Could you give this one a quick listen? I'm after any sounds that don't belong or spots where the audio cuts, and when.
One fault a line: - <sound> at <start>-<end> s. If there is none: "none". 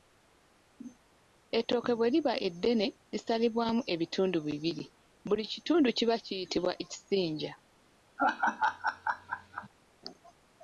- laugh at 8.2-9.7 s